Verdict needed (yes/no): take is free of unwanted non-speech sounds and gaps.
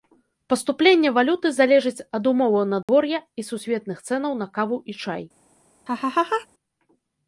no